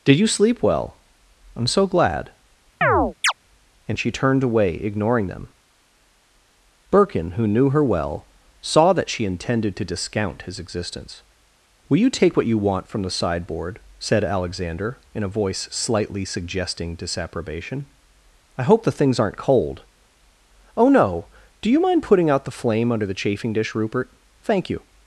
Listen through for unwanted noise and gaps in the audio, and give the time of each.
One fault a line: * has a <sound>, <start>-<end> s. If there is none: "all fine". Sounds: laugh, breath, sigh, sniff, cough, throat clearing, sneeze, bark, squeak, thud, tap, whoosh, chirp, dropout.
* has a chirp, 2.8-3.3 s